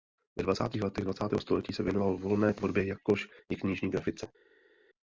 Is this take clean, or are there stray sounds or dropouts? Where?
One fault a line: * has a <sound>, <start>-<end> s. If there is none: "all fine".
all fine